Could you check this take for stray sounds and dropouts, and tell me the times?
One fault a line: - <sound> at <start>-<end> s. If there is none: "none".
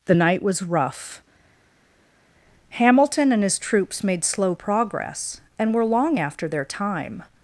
none